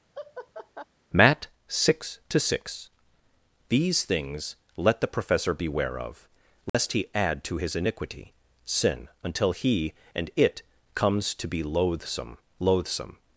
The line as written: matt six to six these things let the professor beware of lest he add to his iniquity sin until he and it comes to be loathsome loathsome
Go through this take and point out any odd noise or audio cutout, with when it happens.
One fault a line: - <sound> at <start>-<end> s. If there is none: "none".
- laugh at 0.1-0.9 s
- dropout at 6.7-6.7 s